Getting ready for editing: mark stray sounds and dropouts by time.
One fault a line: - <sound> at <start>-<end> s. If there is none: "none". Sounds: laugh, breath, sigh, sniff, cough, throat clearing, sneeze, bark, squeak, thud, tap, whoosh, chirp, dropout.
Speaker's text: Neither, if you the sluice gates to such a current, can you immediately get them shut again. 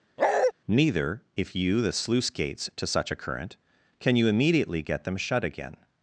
- bark at 0.2-0.5 s